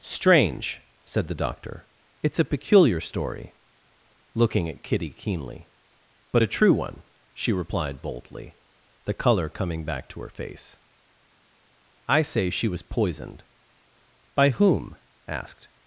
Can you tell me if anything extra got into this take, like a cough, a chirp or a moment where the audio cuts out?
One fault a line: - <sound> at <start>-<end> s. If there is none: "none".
none